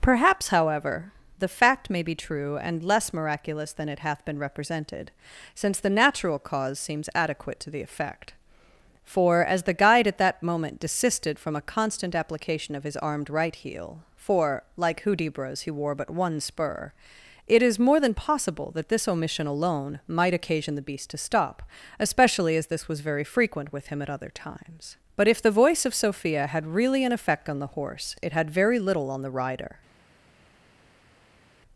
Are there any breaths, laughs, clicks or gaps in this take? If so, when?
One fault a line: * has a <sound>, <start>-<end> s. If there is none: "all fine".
all fine